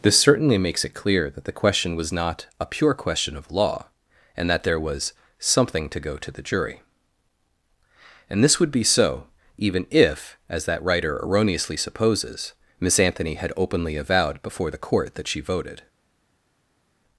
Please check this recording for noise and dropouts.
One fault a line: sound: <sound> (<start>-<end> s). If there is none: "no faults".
no faults